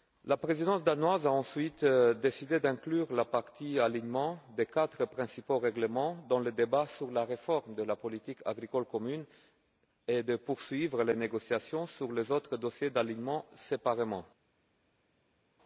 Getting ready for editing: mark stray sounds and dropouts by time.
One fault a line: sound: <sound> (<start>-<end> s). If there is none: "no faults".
no faults